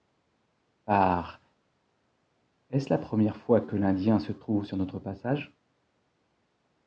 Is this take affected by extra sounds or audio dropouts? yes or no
no